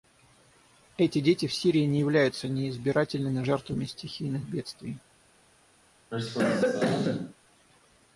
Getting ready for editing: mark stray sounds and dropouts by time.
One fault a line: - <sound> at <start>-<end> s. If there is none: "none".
- cough at 6.1-7.3 s